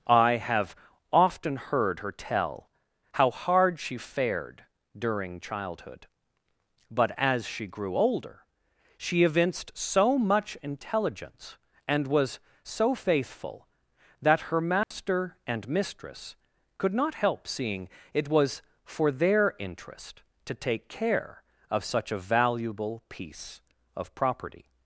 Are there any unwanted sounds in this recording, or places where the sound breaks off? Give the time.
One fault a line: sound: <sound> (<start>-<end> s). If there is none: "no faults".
sound: dropout (14.8-14.9 s)